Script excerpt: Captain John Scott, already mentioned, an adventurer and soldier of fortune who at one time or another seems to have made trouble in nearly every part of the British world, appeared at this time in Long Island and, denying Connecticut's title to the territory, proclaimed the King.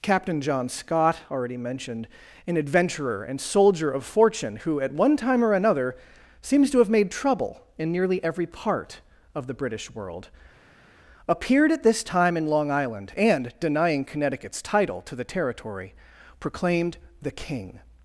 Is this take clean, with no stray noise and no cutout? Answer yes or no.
yes